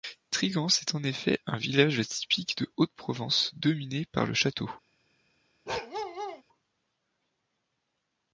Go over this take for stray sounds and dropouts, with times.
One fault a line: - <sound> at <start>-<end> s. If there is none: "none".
- bark at 5.7-6.4 s